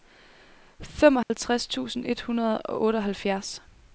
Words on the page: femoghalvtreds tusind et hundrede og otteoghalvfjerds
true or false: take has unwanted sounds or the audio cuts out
true